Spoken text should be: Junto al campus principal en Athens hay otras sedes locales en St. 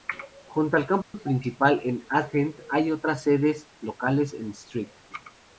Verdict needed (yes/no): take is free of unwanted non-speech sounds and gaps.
no